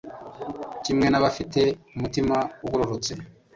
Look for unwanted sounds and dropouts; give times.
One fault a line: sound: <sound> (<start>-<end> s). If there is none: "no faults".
no faults